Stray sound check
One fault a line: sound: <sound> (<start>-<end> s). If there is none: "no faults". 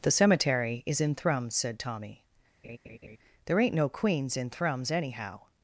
sound: laugh (2.6-3.2 s)